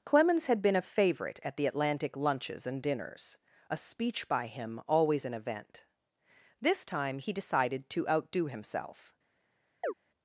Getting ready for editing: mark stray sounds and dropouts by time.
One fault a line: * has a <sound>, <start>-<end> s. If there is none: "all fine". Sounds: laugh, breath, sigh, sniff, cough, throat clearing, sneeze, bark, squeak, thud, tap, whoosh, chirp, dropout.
* has a chirp, 9.8-9.9 s